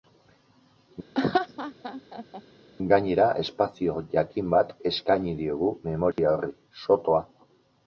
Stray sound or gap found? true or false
true